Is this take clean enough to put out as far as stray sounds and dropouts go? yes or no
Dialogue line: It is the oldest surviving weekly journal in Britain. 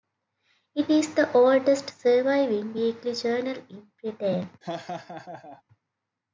no